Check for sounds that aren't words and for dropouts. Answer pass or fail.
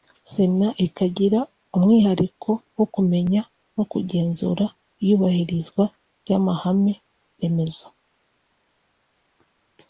pass